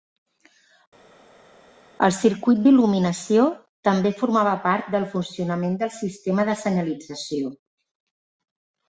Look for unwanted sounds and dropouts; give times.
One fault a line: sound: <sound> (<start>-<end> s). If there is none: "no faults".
no faults